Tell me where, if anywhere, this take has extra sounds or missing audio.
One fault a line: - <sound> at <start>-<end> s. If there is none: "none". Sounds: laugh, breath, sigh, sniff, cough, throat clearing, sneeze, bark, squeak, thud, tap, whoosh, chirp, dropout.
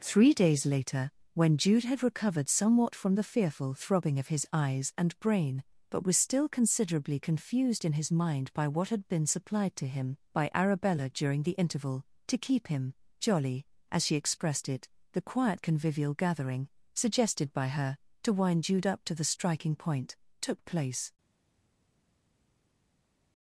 none